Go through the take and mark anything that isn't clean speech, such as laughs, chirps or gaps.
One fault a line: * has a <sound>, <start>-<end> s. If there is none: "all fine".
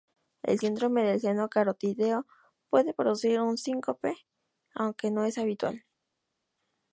all fine